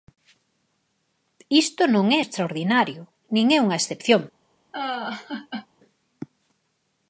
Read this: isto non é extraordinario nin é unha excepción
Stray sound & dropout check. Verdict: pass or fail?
fail